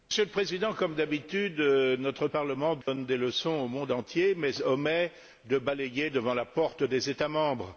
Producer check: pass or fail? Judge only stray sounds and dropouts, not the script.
fail